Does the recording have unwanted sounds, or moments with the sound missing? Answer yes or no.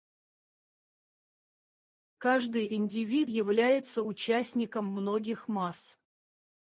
no